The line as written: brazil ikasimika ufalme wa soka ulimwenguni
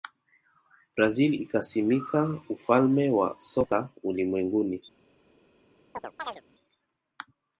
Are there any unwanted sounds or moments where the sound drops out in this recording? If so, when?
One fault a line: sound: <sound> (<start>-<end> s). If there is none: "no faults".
sound: chirp (5.9-6.4 s)